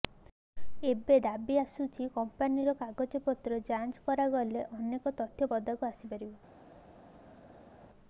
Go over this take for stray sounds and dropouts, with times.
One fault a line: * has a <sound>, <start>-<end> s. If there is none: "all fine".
all fine